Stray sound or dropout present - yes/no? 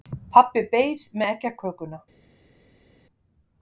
no